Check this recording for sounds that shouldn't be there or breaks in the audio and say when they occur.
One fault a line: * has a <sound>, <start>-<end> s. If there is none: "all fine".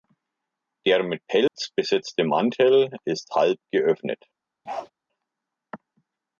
* has a dropout, 1.5-1.5 s
* has a bark, 4.7-4.9 s